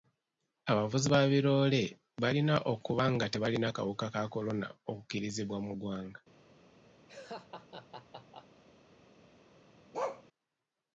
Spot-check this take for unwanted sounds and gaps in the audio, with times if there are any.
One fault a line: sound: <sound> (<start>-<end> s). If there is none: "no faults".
sound: laugh (7.1-8.6 s)
sound: bark (9.9-10.2 s)